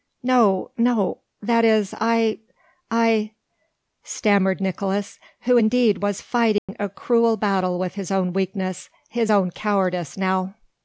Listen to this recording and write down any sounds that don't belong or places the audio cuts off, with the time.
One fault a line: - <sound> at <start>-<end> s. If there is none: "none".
- dropout at 6.6-6.7 s